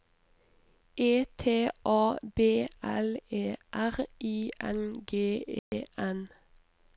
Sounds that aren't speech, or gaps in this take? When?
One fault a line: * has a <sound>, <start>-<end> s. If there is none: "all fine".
* has a dropout, 5.6-5.7 s